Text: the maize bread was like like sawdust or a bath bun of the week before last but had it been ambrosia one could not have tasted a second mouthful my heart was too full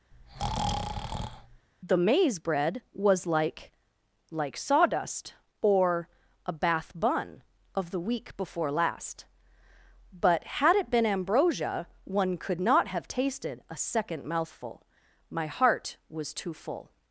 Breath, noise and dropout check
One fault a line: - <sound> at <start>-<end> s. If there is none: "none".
- breath at 0.1-1.7 s